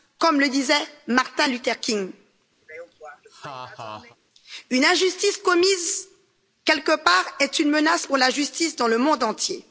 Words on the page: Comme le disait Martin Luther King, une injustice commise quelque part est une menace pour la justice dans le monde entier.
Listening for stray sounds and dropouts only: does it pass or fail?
fail